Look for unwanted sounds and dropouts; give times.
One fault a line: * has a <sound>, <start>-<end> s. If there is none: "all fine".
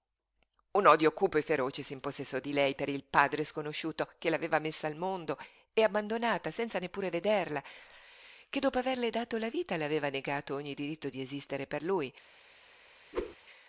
* has a whoosh, 13.1-13.4 s